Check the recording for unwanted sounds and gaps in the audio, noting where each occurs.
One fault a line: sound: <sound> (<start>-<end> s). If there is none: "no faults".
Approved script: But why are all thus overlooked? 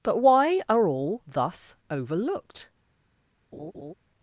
sound: laugh (3.5-3.9 s)